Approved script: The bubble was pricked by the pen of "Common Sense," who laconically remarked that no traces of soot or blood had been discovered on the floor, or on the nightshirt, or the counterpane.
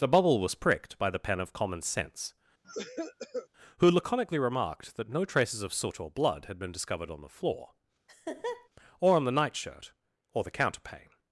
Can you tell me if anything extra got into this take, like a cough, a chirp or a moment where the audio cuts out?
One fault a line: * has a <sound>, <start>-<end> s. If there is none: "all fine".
* has a cough, 2.6-3.5 s
* has a laugh, 8.1-8.7 s